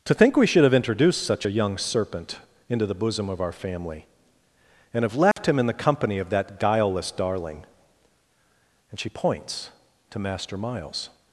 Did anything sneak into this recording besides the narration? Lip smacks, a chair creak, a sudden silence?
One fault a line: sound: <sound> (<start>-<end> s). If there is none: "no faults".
sound: dropout (5.3-5.4 s)